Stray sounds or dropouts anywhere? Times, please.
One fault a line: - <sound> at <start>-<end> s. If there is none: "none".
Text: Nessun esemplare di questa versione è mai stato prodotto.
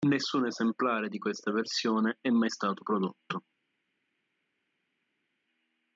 none